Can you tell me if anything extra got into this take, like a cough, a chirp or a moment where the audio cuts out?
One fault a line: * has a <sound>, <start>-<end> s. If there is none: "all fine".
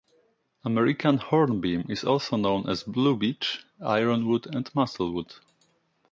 all fine